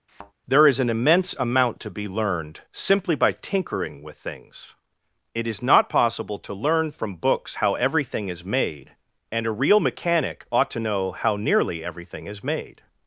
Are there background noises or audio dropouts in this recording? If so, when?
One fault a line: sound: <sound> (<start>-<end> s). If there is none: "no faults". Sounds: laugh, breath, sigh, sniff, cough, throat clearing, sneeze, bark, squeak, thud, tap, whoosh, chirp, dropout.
sound: thud (0.1-0.3 s)